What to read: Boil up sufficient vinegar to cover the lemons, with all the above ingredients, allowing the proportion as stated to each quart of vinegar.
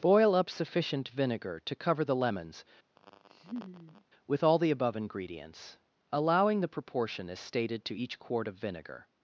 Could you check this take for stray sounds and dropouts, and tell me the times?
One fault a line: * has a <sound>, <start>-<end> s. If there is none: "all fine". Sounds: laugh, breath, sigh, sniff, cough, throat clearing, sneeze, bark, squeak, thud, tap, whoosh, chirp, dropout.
* has a laugh, 3.0-4.0 s